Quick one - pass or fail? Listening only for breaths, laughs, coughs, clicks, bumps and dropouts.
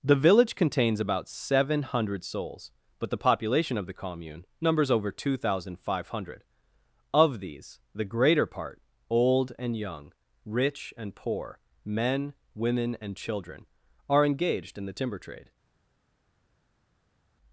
pass